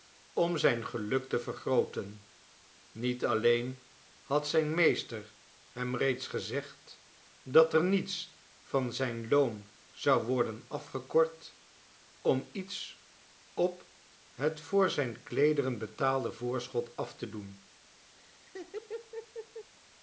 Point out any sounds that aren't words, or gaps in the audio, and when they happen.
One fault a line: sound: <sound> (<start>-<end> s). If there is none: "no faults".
sound: laugh (18.2-19.7 s)